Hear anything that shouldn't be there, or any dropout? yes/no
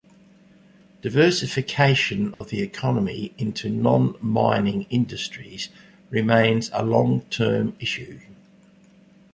yes